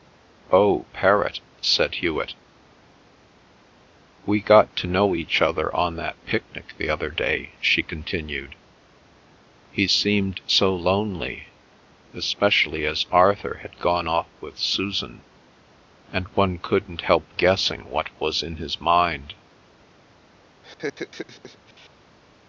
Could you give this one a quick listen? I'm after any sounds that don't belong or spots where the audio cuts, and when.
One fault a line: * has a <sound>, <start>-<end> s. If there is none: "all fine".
* has a laugh, 20.6-21.9 s